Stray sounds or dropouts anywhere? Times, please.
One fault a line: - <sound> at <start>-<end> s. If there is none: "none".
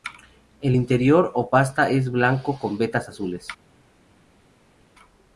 none